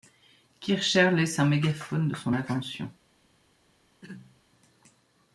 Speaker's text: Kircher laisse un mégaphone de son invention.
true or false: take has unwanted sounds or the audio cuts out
true